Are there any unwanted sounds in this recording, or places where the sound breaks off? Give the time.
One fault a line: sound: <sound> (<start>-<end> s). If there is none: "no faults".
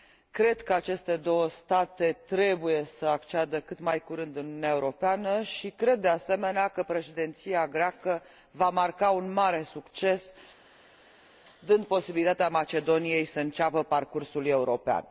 no faults